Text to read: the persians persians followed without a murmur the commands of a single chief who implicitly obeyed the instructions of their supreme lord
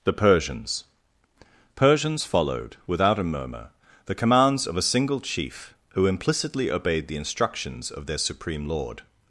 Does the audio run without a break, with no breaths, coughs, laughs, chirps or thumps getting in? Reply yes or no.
yes